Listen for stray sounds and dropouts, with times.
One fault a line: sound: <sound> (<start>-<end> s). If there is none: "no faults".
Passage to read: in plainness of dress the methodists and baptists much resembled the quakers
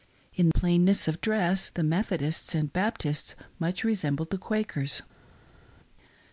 no faults